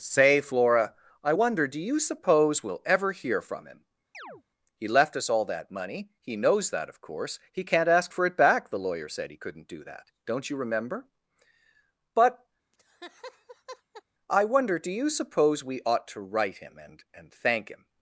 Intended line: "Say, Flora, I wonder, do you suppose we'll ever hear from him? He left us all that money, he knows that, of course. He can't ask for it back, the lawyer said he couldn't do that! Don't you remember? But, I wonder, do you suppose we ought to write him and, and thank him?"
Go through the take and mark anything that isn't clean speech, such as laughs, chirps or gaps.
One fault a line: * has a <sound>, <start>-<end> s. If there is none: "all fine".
* has a chirp, 4.1-4.4 s
* has a laugh, 12.7-14.0 s